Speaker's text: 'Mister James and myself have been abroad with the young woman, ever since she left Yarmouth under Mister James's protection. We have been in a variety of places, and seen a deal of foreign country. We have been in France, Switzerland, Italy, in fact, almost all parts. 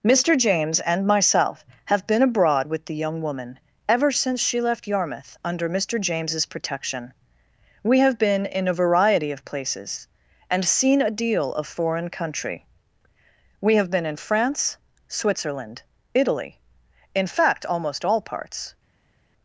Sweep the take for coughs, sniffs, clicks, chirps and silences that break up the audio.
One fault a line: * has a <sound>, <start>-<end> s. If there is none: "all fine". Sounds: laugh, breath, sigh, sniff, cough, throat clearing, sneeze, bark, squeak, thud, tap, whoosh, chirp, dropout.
all fine